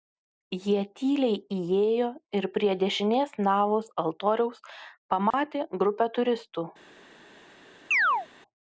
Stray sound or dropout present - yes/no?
yes